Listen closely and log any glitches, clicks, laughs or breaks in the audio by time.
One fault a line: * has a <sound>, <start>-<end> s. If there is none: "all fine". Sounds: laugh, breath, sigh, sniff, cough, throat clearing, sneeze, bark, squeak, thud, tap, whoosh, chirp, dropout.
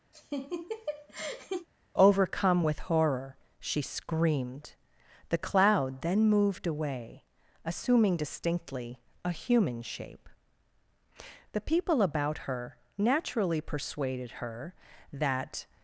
* has a laugh, 0.1-1.7 s